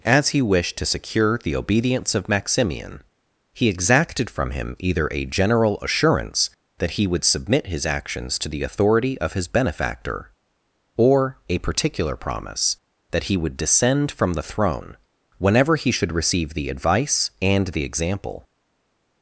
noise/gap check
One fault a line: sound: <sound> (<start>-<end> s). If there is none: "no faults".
no faults